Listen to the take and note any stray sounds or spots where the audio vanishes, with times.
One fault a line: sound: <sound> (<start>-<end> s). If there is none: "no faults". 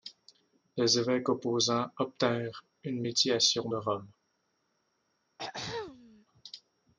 sound: throat clearing (5.4-6.3 s)